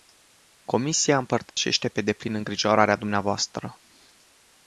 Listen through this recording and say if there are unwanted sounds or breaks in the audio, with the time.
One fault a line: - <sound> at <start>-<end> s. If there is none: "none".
- dropout at 1.5-1.6 s